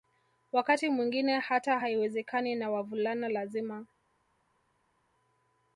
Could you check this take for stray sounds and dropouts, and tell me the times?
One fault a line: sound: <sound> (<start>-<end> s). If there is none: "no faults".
no faults